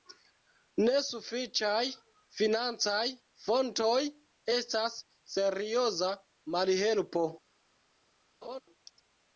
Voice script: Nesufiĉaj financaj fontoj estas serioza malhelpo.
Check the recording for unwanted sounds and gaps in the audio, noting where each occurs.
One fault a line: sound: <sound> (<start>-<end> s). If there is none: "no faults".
sound: laugh (8.4-8.6 s)